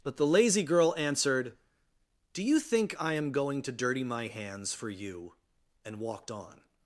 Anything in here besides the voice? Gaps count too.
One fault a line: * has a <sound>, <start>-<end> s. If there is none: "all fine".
all fine